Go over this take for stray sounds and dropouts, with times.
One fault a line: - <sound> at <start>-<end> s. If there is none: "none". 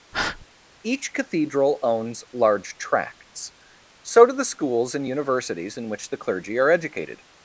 - breath at 0.1-0.5 s